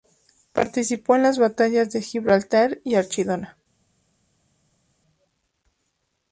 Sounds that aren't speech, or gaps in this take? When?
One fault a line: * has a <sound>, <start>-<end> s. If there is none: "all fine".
all fine